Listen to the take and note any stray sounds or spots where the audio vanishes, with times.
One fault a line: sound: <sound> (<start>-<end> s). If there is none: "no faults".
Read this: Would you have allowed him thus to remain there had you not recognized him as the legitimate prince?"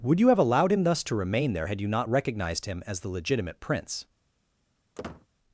sound: squeak (5.0-5.3 s)